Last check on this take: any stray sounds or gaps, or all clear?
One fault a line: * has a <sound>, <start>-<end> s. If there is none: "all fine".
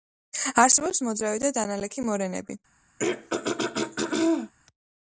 * has a throat clearing, 3.0-4.5 s